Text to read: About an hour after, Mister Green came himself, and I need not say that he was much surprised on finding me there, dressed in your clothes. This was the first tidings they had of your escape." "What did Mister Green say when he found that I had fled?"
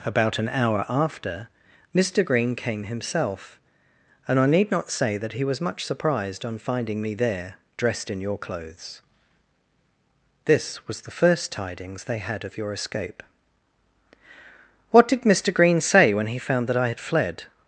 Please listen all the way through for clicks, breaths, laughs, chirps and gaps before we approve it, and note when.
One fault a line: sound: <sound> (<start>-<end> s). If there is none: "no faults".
no faults